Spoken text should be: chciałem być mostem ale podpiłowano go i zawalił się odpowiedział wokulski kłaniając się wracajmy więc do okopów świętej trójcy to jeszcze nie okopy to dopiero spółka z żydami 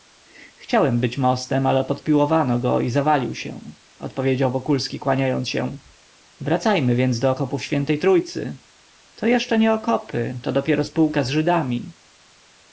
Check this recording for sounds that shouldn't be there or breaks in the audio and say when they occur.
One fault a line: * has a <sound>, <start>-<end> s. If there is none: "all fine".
all fine